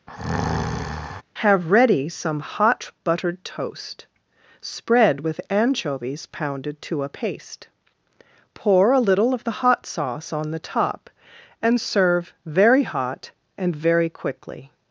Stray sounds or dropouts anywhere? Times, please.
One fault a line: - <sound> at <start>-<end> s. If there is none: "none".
- breath at 0.1-1.2 s